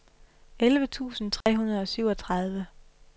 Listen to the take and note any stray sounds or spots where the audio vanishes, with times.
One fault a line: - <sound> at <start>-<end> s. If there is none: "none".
- dropout at 1.4-1.5 s